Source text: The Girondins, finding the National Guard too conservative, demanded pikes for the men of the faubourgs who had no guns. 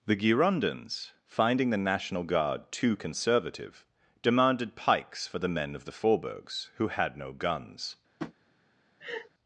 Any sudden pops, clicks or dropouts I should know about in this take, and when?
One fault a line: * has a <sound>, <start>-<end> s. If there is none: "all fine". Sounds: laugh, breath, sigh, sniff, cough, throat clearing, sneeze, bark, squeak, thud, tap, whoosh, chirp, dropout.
* has a tap, 8.2-8.3 s
* has a laugh, 9.0-9.3 s